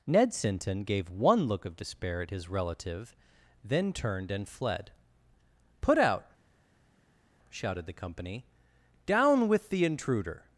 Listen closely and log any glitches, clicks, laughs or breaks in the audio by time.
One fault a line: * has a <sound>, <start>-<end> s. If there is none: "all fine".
all fine